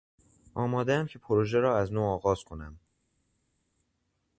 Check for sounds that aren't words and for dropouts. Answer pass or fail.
pass